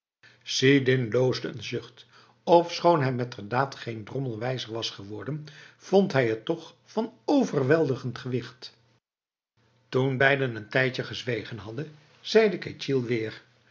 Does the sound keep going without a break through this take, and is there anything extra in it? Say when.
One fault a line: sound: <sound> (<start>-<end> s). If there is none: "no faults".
no faults